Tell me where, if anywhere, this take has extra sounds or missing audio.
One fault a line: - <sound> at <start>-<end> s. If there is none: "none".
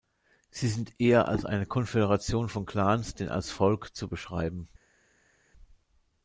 none